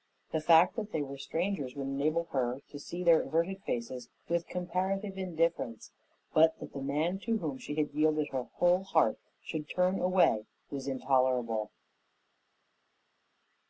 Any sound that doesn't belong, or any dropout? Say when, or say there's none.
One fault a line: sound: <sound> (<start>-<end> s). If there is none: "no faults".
no faults